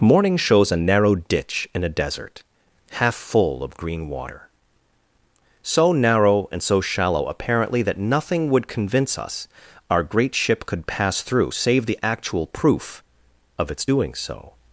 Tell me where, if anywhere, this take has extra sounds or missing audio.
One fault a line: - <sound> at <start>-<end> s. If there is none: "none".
none